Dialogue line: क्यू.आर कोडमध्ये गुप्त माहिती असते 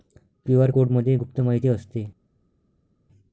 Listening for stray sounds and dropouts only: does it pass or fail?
pass